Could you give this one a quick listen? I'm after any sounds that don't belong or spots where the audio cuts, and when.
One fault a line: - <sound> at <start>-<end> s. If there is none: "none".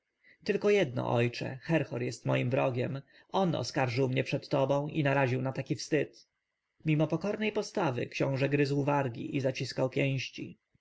none